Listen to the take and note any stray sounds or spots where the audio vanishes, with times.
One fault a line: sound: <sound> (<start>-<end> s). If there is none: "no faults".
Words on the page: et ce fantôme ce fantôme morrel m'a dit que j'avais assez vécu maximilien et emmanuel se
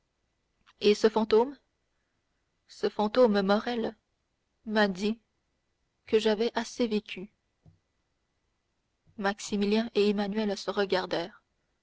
no faults